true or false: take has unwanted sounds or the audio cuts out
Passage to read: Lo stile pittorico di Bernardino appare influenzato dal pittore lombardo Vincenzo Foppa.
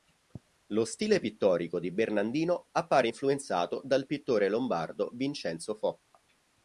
true